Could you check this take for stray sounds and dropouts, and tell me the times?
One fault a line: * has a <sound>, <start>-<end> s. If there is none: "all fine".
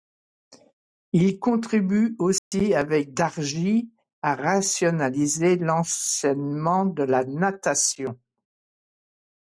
* has a dropout, 2.4-2.5 s